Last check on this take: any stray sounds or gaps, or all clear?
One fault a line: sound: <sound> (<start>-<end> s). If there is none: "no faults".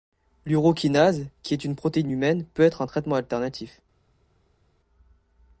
no faults